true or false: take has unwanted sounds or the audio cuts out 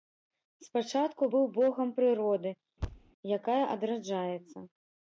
true